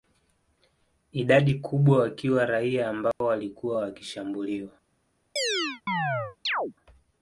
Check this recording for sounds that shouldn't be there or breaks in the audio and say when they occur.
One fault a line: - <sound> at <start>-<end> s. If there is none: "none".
- dropout at 3.1-3.2 s
- chirp at 5.4-6.7 s